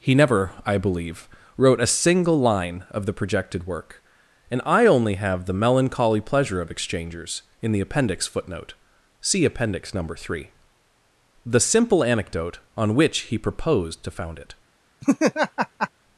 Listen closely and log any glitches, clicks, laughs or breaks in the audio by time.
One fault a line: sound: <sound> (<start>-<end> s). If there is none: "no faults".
sound: laugh (15.0-15.9 s)